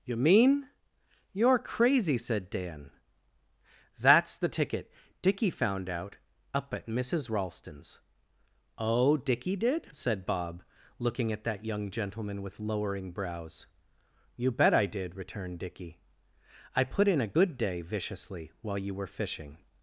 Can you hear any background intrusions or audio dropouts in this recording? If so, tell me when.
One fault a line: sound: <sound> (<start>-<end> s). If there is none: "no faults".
no faults